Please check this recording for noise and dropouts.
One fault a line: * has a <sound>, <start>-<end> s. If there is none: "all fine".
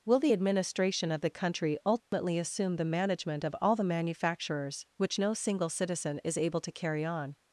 * has a dropout, 2.0-2.1 s